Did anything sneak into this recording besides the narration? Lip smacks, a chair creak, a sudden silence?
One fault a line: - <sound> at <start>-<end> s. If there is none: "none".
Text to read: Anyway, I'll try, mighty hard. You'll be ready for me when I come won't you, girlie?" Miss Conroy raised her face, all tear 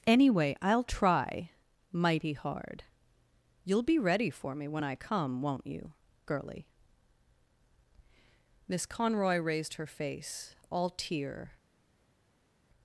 none